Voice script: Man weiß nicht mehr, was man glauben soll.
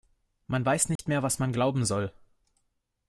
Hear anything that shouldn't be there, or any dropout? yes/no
yes